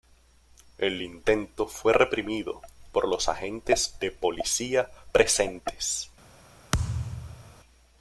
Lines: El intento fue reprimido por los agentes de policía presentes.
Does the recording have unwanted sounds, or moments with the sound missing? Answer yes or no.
yes